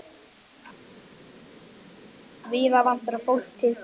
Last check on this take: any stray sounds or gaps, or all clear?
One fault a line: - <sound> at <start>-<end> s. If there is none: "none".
none